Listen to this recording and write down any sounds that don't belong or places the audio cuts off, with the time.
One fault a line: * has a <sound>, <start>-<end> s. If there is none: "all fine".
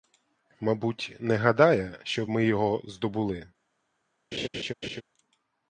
* has a laugh, 4.3-5.0 s